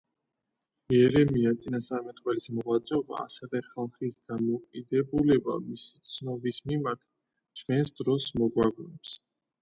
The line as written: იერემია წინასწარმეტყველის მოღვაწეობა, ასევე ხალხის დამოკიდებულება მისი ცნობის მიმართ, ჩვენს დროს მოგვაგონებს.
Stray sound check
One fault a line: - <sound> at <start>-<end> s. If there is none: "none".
none